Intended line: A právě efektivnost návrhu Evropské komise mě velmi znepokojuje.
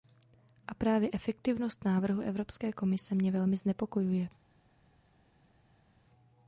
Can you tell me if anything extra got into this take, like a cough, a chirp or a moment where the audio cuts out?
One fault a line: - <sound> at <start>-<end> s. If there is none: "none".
none